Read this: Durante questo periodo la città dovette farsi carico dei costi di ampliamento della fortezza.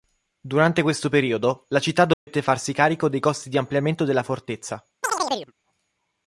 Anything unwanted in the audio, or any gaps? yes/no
yes